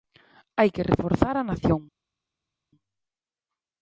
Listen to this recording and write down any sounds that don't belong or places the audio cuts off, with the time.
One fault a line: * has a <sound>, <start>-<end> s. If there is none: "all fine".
all fine